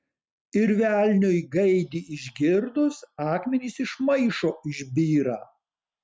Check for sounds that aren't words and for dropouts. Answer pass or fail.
pass